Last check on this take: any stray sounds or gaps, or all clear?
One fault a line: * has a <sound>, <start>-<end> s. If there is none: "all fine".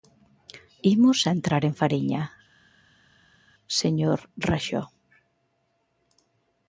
all fine